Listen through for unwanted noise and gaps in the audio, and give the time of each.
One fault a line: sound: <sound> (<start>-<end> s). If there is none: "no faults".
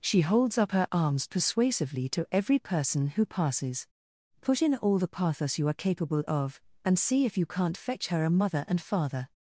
no faults